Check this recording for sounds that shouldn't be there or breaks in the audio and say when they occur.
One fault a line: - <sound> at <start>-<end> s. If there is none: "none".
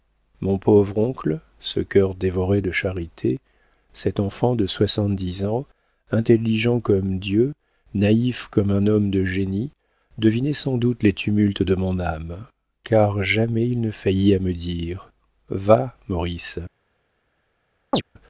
- chirp at 17.9-18.0 s